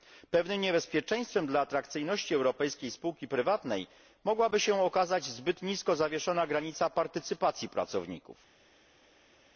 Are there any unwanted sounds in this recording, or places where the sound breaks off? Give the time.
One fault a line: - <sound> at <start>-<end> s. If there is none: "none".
none